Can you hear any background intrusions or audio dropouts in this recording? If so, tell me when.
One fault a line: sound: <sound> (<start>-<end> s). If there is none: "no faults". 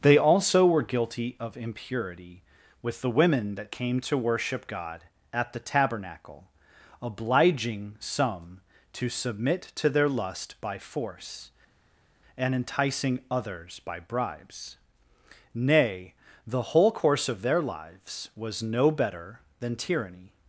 no faults